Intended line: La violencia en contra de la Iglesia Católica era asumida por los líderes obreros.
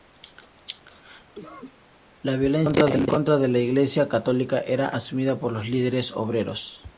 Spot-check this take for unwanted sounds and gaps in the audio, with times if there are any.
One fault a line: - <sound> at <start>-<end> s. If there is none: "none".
- cough at 1.3-1.8 s